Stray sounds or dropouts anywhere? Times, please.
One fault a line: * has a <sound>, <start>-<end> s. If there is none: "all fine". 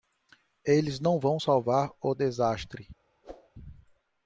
* has a whoosh, 3.2-3.5 s